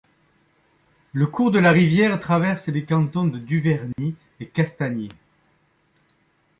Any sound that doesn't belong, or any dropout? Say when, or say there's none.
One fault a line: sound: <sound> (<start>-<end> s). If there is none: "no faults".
sound: dropout (3.9-4.0 s)